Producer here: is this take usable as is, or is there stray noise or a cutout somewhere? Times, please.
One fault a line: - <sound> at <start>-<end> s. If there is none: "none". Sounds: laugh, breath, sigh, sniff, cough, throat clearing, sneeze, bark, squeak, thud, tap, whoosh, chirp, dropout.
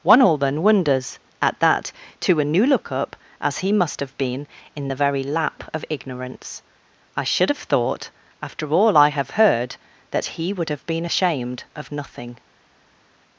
none